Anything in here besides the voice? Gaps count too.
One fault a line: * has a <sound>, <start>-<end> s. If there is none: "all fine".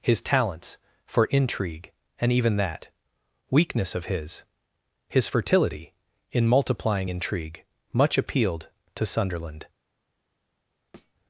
* has a thud, 10.9-11.1 s